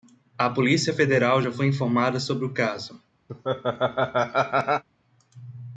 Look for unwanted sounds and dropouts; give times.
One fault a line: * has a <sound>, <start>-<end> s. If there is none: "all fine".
* has a laugh, 3.3-4.8 s